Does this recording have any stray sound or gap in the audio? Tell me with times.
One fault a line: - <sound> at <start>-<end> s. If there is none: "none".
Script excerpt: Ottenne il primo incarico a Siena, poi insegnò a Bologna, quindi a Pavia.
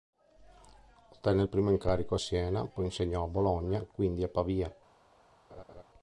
- laugh at 5.5-5.8 s